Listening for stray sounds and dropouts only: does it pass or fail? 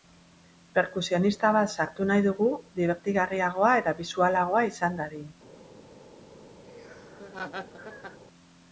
fail